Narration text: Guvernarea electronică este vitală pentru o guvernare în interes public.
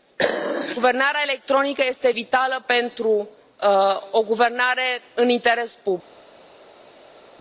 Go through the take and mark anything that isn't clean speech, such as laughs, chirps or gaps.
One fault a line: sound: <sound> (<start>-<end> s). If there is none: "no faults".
no faults